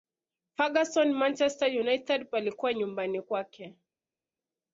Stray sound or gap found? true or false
false